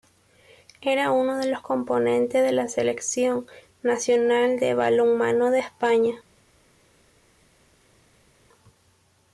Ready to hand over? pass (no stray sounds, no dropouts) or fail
pass